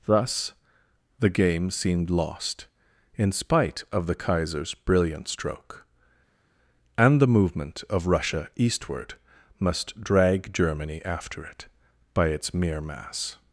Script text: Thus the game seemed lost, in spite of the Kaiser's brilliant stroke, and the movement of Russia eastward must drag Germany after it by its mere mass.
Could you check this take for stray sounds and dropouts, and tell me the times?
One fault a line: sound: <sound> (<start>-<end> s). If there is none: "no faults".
no faults